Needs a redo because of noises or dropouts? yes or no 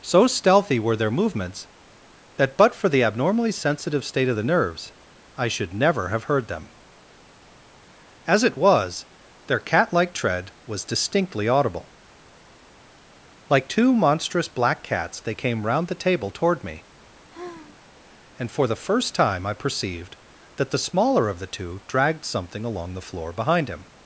yes